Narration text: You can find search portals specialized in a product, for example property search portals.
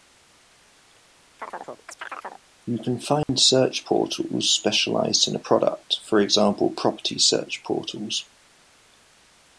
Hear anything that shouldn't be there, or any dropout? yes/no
yes